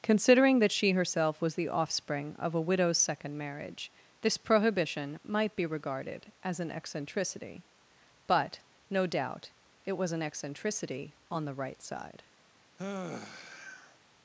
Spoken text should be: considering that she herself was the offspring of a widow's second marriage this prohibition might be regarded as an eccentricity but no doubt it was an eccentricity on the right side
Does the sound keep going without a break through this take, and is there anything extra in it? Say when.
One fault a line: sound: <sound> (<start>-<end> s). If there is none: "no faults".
sound: sigh (12.8-14.0 s)